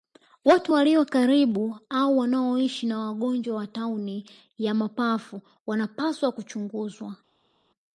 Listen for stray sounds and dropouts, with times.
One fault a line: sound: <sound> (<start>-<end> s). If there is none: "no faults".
no faults